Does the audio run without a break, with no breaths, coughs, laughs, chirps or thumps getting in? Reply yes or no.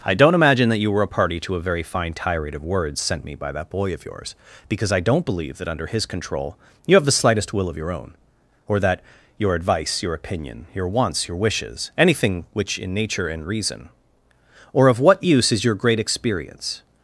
yes